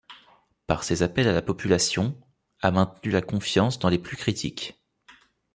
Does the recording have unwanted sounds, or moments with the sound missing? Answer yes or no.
no